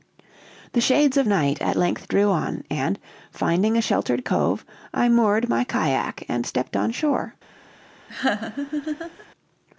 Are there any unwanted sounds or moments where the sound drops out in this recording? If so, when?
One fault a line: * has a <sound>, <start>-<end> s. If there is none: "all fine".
* has a laugh, 8.1-9.3 s